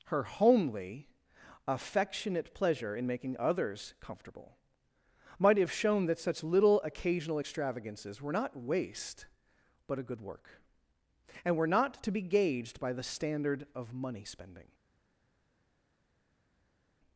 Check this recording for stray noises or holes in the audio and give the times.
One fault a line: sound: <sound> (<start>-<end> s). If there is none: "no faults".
no faults